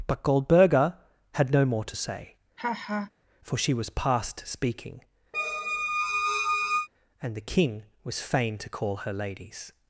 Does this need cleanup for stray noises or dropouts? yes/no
yes